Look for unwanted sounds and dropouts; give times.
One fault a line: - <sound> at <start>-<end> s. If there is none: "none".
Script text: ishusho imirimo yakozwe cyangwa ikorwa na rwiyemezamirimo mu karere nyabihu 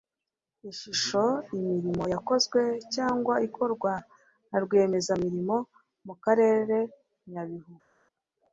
none